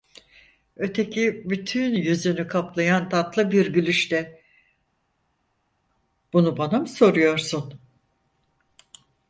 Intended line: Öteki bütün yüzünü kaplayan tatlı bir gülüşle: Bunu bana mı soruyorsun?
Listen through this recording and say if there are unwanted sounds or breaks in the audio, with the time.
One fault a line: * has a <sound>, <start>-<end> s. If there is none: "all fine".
all fine